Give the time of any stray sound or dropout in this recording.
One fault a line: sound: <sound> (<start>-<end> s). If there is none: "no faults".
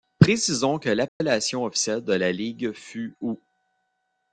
sound: dropout (1.1-1.2 s)